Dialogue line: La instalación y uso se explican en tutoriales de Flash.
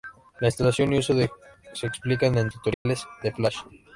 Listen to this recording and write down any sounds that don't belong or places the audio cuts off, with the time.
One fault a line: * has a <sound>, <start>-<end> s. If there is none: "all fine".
* has a dropout, 2.7-2.9 s